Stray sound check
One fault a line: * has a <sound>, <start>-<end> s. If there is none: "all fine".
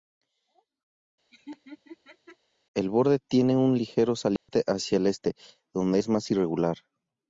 * has a laugh, 1.3-2.4 s
* has a dropout, 4.4-4.5 s